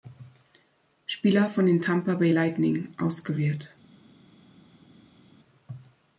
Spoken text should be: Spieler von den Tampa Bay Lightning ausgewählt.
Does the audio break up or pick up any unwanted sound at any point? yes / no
no